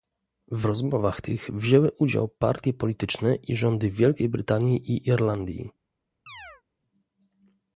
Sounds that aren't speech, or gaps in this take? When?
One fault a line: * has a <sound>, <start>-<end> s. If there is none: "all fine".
* has a chirp, 6.3-6.6 s